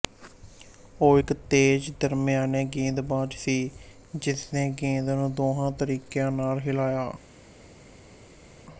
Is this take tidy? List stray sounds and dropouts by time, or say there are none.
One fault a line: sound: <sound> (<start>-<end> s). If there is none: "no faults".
no faults